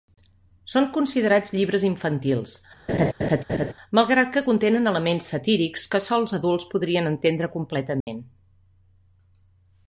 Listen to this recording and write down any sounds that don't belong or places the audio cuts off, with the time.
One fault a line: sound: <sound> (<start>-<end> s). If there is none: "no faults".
sound: laugh (2.9-3.7 s)
sound: dropout (8.0-8.1 s)